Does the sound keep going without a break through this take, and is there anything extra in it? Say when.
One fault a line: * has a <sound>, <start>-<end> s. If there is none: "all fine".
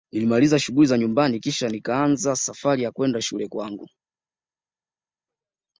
all fine